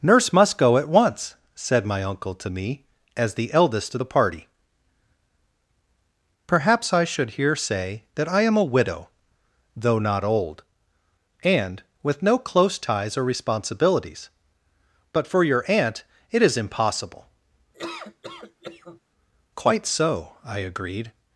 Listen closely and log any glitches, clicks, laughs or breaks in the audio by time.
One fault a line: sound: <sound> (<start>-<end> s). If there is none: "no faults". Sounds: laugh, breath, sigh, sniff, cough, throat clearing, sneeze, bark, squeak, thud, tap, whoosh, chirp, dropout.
sound: laugh (17.7-19.0 s)